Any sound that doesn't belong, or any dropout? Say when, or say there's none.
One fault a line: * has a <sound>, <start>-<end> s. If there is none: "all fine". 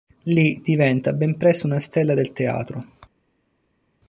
all fine